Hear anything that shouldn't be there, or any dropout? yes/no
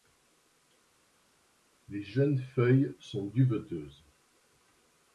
no